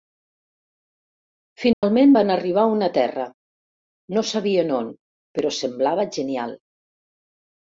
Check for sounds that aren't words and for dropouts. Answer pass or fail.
fail